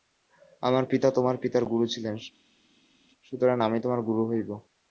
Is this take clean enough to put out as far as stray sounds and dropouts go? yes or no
yes